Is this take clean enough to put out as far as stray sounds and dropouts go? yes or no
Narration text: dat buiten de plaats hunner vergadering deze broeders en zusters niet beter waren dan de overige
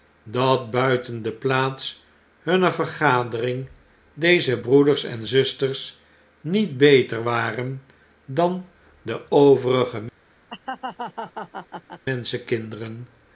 no